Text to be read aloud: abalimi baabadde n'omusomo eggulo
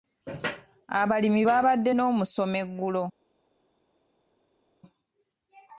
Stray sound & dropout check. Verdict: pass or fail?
pass